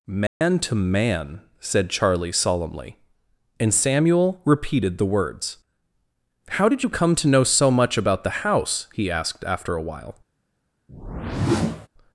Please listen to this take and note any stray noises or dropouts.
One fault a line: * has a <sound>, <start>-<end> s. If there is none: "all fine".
* has a dropout, 0.3-0.4 s
* has a whoosh, 10.9-11.9 s